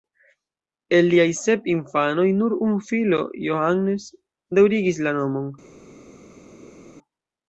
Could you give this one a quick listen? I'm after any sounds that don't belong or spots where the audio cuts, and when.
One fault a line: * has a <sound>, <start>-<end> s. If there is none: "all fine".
all fine